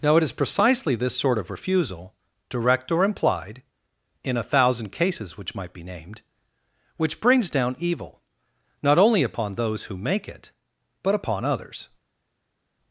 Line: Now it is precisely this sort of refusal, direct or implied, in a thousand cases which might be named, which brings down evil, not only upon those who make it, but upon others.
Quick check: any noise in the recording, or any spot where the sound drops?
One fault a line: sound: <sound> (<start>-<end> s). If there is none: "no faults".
no faults